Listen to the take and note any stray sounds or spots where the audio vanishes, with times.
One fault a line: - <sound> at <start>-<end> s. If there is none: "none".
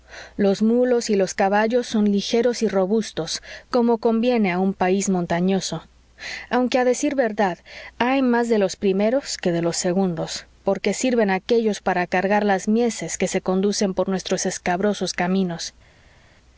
none